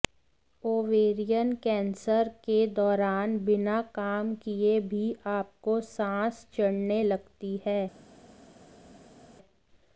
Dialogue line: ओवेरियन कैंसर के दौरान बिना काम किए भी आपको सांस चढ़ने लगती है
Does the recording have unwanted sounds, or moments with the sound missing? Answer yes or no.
no